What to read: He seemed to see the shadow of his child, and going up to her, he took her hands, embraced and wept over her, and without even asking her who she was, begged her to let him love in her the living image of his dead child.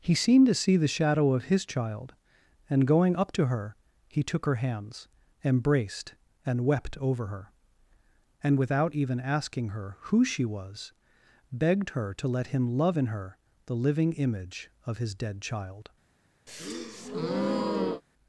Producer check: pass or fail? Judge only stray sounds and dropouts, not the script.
fail